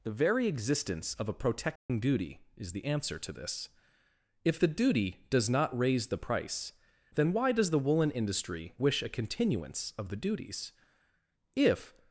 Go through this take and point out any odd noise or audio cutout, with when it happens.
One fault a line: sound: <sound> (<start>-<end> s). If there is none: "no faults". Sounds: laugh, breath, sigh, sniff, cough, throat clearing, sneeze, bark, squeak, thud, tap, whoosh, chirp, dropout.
sound: dropout (1.8-1.9 s)